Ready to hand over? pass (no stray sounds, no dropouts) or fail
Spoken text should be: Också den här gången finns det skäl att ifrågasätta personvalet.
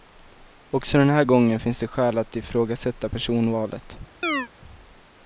fail